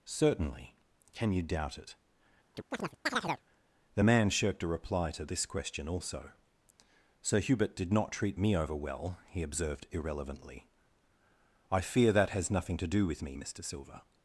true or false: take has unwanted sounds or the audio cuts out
true